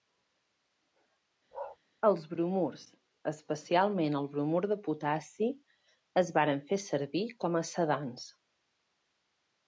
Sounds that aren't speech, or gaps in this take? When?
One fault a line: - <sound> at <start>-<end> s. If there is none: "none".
- bark at 1.5-1.8 s